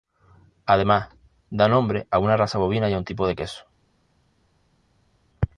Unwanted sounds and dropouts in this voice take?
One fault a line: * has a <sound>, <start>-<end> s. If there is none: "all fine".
all fine